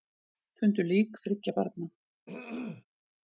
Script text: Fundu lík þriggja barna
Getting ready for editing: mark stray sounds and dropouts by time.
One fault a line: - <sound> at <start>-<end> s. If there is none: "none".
- throat clearing at 2.3-2.9 s